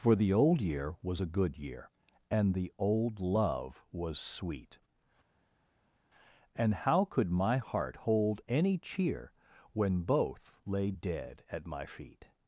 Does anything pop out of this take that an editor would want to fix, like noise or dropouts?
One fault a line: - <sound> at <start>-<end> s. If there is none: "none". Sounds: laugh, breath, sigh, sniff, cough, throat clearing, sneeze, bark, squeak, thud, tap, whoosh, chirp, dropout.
none